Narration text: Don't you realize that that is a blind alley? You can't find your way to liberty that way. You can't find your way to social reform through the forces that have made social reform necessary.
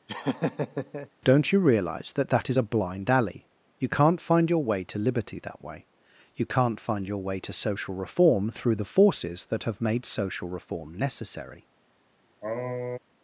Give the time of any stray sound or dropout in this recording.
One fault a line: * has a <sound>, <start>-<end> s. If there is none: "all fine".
* has a laugh, 0.1-1.1 s
* has a sniff, 12.4-13.0 s